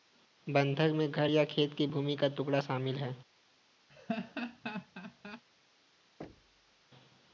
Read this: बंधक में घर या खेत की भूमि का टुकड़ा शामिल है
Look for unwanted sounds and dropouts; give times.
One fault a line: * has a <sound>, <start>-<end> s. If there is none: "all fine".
* has a laugh, 3.9-5.4 s
* has a thud, 6.2-6.8 s